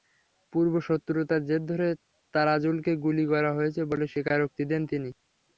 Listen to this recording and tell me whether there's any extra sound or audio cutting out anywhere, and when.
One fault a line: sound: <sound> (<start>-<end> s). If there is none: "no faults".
no faults